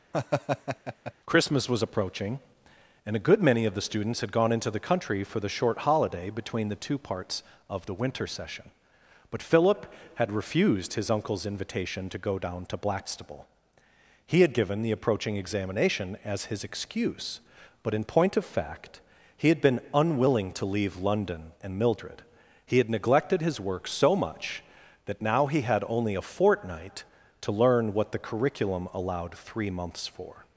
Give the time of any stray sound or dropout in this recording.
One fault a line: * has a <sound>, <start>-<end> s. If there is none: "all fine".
* has a laugh, 0.1-1.1 s